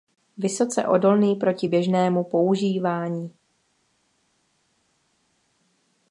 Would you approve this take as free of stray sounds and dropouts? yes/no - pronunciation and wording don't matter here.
yes